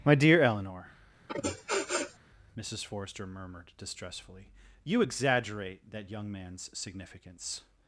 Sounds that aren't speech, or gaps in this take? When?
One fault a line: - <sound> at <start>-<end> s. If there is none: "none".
- sniff at 1.3-2.2 s